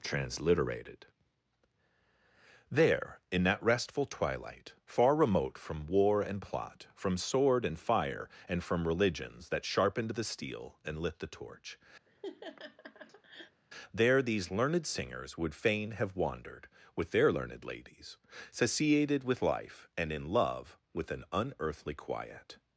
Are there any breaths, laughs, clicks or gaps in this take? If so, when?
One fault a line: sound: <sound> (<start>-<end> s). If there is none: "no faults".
sound: laugh (12.1-13.6 s)